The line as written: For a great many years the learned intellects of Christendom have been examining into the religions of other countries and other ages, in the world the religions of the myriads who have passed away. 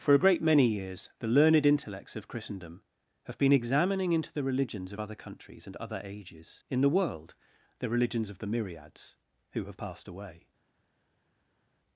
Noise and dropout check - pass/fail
pass